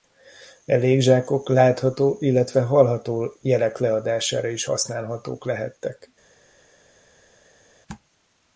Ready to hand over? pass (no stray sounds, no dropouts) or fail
pass